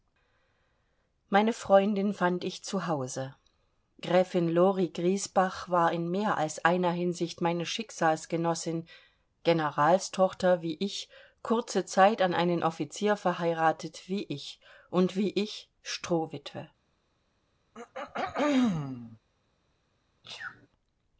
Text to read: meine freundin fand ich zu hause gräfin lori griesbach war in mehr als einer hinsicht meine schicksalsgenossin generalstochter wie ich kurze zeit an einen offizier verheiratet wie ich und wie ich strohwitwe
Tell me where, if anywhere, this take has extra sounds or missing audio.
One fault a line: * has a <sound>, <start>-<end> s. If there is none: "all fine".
* has a throat clearing, 17.7-19.2 s
* has a sneeze, 20.2-20.7 s